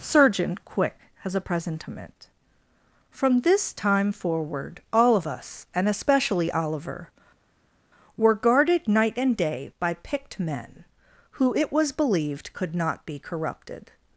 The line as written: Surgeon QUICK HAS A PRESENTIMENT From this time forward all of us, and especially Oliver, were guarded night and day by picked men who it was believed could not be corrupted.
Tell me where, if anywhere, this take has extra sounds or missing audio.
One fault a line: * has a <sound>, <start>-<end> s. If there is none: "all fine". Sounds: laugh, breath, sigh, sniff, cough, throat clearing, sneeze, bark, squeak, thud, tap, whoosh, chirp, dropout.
all fine